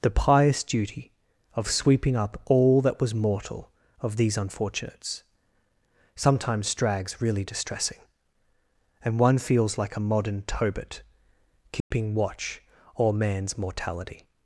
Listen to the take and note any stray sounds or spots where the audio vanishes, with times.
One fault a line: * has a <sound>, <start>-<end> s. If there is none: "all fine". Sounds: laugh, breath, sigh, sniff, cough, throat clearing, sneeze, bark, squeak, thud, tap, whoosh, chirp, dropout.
* has a dropout, 11.8-11.9 s